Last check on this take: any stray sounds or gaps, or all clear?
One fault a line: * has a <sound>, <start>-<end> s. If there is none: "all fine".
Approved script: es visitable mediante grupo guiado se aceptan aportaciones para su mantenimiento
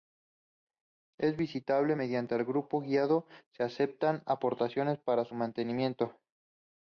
all fine